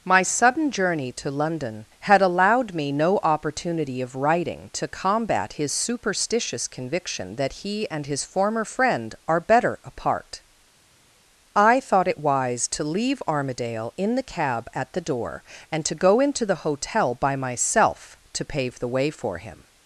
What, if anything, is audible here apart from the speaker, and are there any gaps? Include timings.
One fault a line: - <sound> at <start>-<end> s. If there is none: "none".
none